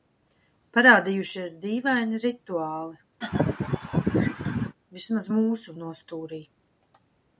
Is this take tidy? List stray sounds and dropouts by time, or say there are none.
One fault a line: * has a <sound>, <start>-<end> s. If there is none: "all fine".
* has a laugh, 3.2-4.8 s